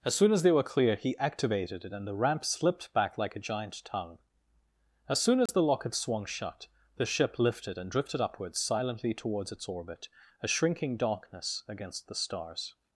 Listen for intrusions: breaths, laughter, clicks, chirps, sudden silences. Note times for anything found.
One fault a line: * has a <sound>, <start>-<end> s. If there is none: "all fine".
* has a dropout, 5.5-5.5 s